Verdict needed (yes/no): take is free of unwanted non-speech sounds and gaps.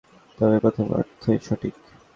yes